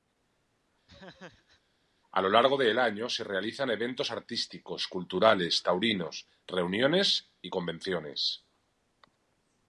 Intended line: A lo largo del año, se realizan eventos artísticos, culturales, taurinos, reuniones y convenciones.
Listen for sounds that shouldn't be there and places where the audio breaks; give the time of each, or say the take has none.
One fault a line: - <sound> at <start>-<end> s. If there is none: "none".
- laugh at 0.9-1.6 s